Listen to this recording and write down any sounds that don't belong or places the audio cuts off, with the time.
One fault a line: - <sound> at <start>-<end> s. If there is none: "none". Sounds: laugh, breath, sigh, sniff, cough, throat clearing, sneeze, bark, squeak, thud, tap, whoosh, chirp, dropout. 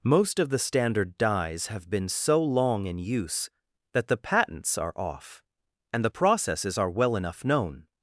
none